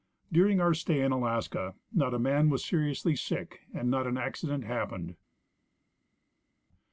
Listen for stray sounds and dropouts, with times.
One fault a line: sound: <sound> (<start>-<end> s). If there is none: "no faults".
no faults